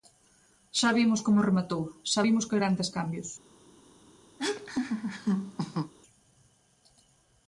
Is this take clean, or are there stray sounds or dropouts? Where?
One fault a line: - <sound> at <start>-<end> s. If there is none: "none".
- laugh at 4.4-5.9 s